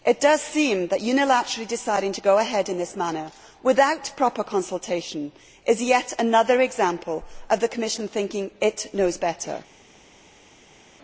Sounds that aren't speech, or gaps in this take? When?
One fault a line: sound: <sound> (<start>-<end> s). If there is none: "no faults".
no faults